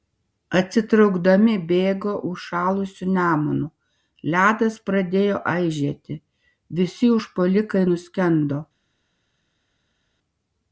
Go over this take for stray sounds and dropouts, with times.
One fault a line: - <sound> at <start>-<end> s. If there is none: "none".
none